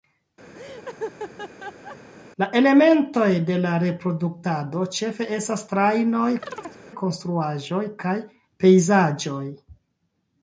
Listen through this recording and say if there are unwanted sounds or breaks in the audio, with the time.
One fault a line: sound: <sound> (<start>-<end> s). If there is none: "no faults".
sound: laugh (0.5-2.0 s)
sound: chirp (6.4-6.8 s)